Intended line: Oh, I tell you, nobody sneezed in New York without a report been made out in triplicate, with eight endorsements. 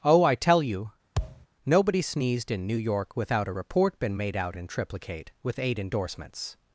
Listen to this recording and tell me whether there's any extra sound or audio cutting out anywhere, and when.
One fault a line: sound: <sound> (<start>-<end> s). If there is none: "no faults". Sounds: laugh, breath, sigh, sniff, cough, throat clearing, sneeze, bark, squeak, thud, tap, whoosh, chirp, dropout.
sound: thud (1.2-1.5 s)